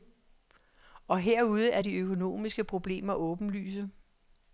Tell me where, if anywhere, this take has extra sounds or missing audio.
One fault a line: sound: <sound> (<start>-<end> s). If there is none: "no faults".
no faults